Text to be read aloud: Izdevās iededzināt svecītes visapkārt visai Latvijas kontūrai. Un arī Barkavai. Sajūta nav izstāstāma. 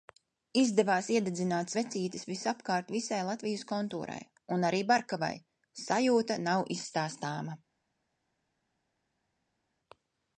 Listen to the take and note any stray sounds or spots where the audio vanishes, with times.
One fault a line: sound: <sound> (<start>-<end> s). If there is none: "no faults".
no faults